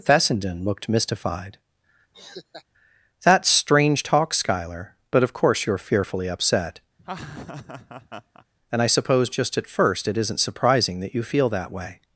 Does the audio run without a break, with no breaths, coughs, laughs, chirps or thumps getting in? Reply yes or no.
no